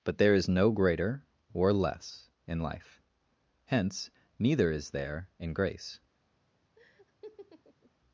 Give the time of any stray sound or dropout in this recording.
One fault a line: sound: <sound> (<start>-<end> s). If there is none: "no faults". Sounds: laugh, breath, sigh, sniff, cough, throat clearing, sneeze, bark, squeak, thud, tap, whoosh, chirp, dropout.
sound: laugh (6.8-7.9 s)